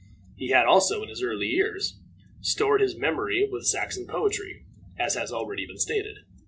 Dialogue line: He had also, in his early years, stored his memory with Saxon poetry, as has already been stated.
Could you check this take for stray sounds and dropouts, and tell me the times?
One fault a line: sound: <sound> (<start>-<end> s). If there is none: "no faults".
no faults